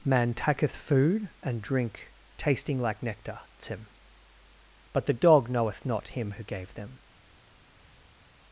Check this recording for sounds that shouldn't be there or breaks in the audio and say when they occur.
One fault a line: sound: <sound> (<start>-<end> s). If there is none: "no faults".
no faults